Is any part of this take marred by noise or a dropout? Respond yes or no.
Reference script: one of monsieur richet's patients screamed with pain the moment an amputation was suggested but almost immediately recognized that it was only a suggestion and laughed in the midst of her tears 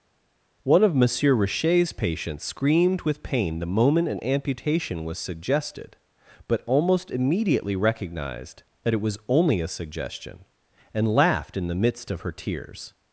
no